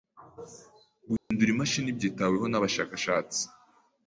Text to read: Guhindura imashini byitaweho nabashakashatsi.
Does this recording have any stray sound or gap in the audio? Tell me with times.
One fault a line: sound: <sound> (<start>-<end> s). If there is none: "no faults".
sound: dropout (1.2-1.3 s)